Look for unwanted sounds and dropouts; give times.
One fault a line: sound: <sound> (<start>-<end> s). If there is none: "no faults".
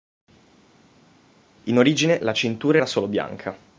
no faults